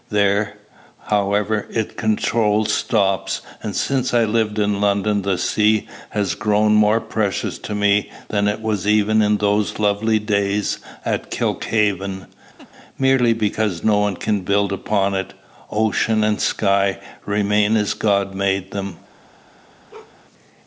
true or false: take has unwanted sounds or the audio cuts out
true